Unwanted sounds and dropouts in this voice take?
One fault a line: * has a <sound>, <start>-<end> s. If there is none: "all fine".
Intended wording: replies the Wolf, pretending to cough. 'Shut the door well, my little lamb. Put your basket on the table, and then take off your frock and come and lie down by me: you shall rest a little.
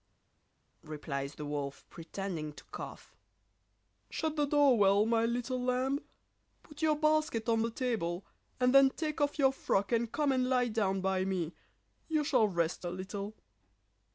all fine